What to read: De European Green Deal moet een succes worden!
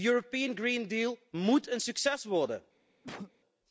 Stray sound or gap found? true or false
true